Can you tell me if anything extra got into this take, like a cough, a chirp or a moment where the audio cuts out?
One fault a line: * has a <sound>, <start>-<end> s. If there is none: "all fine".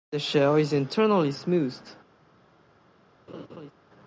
* has a laugh, 3.3-3.7 s